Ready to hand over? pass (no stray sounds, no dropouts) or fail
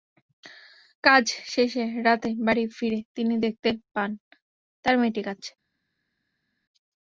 pass